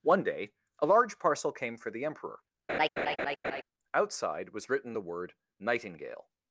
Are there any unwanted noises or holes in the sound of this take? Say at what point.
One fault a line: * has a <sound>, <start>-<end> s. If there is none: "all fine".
* has a laugh, 2.7-3.6 s